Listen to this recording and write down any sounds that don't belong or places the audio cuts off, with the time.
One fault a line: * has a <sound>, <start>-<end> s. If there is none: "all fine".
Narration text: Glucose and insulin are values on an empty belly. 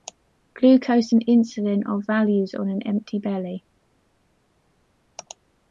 all fine